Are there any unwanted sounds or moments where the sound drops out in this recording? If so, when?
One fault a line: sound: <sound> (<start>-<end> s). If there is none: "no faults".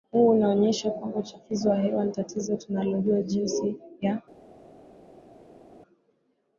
no faults